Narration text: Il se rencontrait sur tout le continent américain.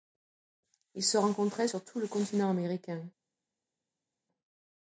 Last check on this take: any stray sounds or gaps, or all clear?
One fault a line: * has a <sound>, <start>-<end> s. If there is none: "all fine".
all fine